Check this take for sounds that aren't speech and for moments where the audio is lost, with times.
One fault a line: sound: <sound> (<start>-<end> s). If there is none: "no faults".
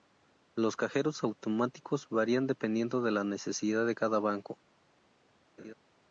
sound: laugh (5.6-5.7 s)